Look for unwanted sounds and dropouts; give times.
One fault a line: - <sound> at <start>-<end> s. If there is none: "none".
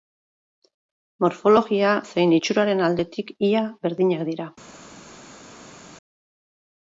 none